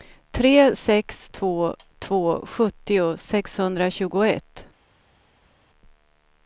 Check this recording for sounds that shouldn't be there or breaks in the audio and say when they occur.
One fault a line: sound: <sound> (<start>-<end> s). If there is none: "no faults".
no faults